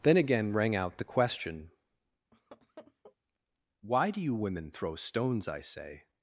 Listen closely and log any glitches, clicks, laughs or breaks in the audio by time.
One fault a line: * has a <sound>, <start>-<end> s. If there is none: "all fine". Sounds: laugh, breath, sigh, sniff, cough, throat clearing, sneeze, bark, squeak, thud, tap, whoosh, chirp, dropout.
* has a laugh, 2.3-3.2 s